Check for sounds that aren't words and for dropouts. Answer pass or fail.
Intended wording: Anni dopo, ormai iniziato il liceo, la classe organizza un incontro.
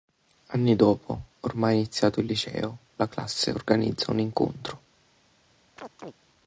fail